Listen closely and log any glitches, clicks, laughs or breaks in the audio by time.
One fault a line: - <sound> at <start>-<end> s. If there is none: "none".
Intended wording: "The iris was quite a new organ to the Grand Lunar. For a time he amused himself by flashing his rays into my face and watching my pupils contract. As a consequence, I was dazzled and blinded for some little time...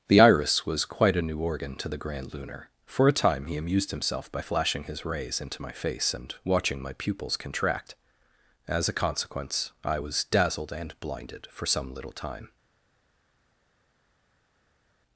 none